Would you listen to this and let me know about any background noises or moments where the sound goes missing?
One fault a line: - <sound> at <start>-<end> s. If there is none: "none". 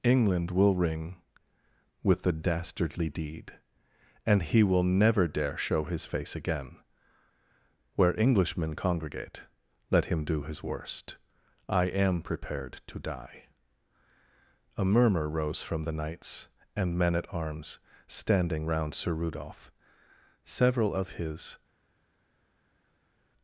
none